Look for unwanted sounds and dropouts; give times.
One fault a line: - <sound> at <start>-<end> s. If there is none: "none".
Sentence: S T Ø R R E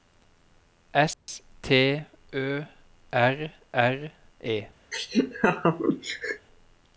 - dropout at 1.1-1.3 s
- laugh at 4.9-6.5 s